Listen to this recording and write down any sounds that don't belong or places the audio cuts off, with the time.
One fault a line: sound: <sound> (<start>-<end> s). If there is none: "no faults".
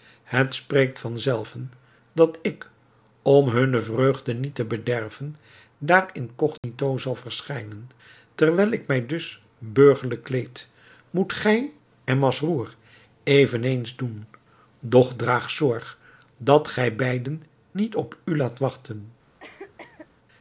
sound: dropout (6.6-6.6 s)
sound: cough (19.4-20.1 s)